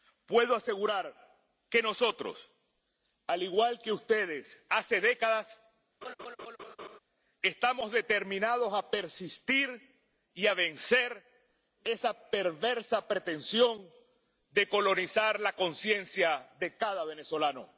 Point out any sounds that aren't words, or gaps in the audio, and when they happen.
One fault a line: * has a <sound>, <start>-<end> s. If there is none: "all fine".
* has a laugh, 6.0-7.0 s